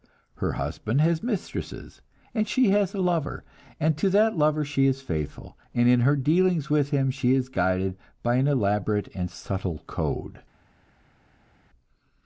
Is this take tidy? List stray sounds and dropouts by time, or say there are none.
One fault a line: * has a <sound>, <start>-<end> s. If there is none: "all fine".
all fine